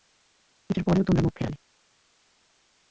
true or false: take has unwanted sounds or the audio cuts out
false